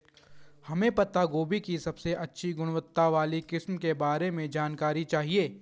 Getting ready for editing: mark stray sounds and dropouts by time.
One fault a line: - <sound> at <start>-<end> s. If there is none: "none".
none